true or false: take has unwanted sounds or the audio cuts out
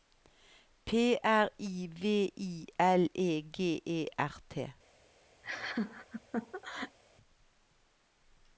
true